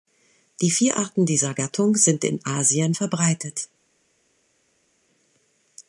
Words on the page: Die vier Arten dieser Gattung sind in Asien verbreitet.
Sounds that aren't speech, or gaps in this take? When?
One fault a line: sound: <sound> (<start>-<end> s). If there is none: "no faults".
no faults